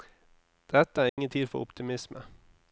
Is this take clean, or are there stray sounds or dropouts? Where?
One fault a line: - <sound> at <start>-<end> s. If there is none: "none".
- dropout at 1.1-1.2 s